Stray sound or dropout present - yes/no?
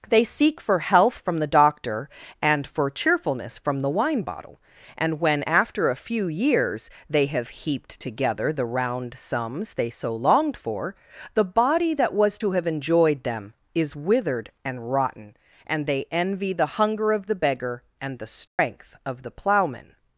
yes